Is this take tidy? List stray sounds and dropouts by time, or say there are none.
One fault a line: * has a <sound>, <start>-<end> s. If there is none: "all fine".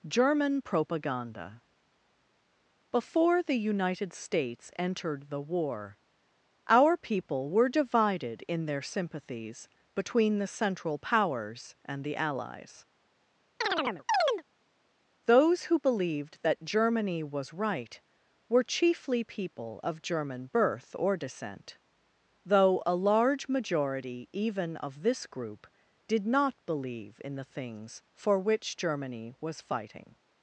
* has a chirp, 13.6-14.4 s